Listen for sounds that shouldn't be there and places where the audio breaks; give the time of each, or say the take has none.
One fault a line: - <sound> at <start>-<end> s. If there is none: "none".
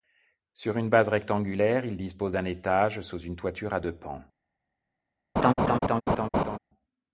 - laugh at 5.4-6.6 s